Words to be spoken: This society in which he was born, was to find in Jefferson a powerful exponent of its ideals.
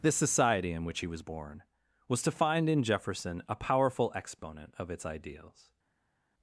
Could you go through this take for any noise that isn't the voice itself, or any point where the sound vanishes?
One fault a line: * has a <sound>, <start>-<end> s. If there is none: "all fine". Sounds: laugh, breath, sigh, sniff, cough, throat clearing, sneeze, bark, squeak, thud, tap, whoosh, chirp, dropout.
all fine